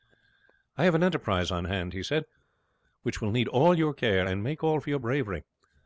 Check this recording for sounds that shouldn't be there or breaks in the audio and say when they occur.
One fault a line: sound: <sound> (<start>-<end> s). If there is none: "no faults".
no faults